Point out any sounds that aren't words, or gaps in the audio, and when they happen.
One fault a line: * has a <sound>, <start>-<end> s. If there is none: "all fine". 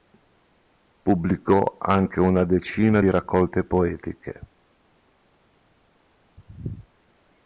all fine